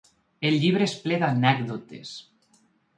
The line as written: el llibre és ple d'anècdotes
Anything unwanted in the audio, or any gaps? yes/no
no